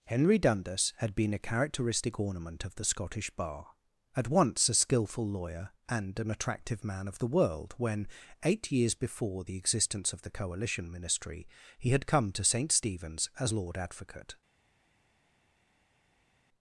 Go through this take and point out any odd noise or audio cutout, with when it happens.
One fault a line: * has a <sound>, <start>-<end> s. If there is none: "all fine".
all fine